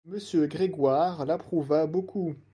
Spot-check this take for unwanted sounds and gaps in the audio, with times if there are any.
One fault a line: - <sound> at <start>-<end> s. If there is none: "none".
none